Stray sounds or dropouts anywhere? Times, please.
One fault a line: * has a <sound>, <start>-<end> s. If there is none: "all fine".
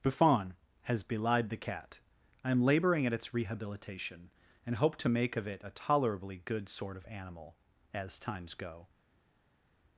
all fine